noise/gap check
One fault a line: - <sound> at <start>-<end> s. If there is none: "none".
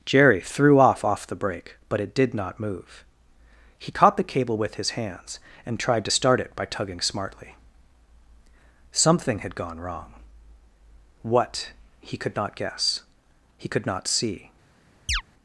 - chirp at 15.1-15.2 s